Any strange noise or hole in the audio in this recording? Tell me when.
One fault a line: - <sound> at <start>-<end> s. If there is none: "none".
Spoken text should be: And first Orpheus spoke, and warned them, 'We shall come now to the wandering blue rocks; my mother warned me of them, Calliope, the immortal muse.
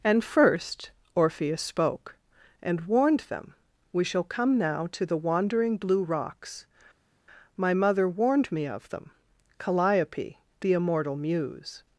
none